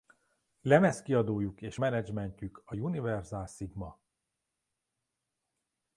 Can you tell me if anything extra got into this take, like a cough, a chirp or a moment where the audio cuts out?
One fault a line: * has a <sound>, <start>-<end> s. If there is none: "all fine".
all fine